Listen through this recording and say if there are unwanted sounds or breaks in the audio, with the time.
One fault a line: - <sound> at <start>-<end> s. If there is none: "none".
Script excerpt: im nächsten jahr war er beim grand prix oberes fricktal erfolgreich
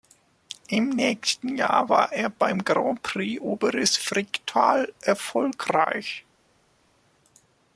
none